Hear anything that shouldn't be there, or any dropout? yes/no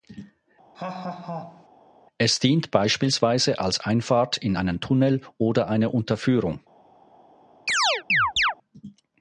yes